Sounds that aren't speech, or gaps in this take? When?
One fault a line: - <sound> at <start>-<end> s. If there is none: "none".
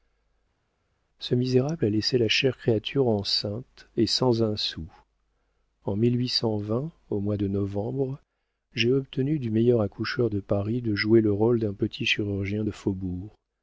none